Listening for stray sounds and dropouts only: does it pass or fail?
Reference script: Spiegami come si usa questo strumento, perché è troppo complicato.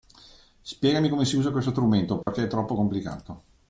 fail